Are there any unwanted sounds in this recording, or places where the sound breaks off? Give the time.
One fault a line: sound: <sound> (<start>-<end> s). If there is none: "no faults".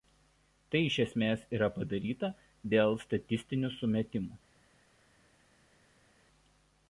no faults